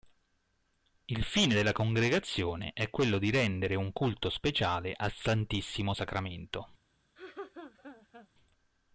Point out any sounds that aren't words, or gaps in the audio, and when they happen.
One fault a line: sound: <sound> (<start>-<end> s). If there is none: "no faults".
sound: laugh (7.2-8.3 s)